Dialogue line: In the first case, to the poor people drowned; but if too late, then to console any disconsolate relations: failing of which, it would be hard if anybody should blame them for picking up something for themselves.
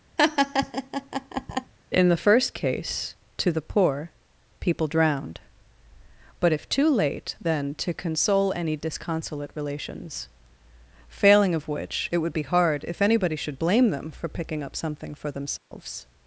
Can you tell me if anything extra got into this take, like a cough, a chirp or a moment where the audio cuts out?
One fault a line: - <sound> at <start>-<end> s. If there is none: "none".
- laugh at 0.2-1.7 s
- dropout at 15.6-15.7 s